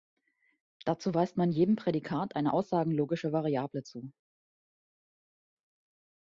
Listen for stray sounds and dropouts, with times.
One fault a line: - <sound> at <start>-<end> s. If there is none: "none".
none